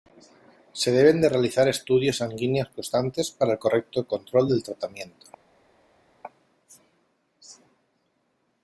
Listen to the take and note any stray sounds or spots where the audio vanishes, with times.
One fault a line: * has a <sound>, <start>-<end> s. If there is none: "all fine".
all fine